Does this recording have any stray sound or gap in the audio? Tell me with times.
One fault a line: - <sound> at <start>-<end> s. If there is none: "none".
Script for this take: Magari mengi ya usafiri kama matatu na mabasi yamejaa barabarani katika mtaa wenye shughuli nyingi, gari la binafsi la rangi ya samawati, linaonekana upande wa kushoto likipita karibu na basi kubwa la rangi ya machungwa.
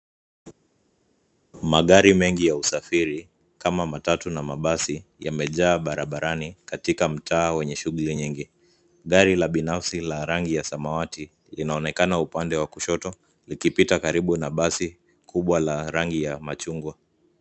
none